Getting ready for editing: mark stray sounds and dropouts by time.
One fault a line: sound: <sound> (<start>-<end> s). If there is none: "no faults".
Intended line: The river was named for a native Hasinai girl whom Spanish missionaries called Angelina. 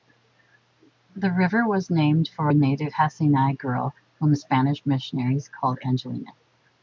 no faults